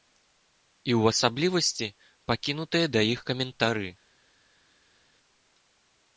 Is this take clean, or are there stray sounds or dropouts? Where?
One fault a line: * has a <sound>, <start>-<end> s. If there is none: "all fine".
all fine